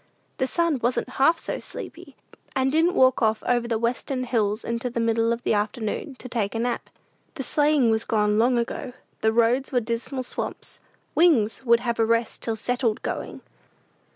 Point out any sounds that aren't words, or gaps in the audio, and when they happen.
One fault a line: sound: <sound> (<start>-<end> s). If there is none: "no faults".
no faults